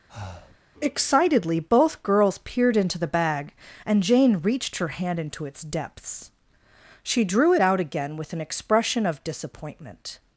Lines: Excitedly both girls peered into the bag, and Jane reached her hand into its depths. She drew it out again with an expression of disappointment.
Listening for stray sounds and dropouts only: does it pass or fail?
fail